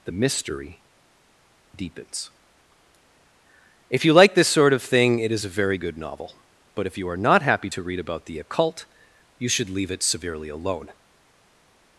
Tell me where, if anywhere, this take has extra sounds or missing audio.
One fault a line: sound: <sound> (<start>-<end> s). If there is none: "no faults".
no faults